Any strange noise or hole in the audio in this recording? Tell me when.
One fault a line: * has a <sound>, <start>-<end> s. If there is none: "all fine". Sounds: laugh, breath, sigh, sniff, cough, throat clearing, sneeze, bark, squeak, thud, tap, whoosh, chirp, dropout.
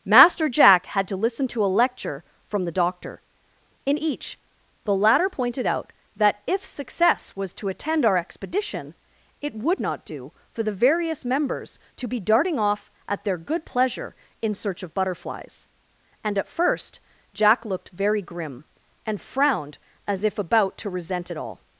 all fine